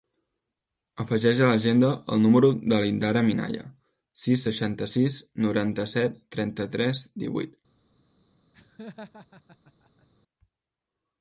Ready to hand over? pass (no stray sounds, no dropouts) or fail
fail